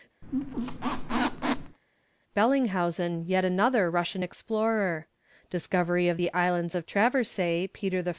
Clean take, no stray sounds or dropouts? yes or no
no